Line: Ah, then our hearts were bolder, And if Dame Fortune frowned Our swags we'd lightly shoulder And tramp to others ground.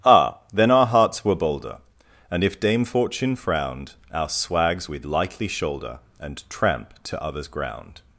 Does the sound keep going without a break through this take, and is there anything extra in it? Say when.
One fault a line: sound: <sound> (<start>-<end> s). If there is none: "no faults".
no faults